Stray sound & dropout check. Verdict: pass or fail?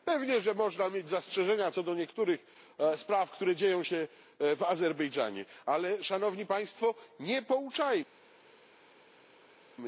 pass